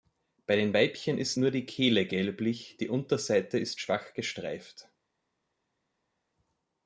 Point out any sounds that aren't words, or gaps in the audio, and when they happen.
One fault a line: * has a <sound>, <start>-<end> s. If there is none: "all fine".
all fine